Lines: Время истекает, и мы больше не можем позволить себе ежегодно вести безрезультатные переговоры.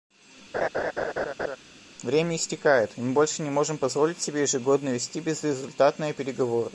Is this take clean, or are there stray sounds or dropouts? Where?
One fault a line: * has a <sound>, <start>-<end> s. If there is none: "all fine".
* has a laugh, 0.5-1.6 s